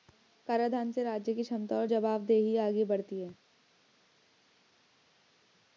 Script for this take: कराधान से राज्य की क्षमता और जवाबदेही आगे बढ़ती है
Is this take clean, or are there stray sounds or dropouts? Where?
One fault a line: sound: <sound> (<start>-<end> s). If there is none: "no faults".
no faults